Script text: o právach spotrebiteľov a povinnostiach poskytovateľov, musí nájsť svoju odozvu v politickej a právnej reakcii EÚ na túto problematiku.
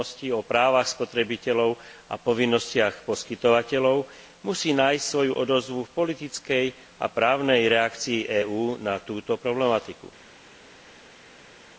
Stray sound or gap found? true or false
false